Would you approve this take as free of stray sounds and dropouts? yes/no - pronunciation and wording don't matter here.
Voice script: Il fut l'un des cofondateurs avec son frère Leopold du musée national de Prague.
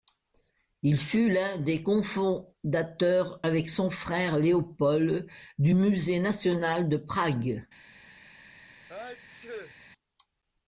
no